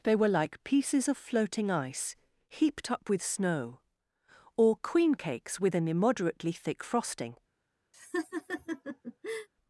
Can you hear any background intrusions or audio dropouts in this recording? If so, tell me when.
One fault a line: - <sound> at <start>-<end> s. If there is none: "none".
- laugh at 7.9-9.5 s